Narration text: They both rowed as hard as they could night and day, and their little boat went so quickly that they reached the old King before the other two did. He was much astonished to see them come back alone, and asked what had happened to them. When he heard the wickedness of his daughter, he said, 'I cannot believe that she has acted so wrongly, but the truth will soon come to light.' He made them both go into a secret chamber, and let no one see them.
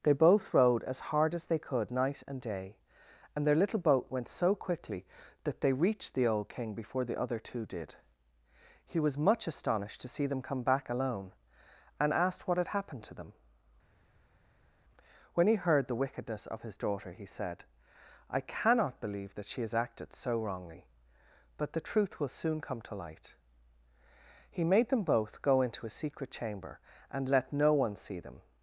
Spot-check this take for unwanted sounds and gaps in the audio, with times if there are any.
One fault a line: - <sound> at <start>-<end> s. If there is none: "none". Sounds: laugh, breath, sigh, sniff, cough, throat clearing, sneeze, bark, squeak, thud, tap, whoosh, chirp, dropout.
none